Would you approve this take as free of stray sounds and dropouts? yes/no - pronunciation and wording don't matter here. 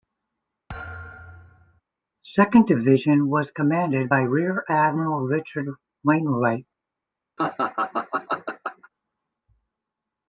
no